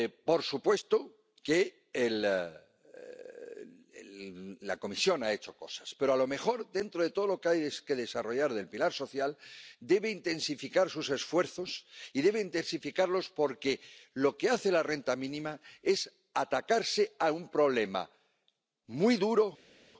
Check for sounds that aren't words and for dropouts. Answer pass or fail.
pass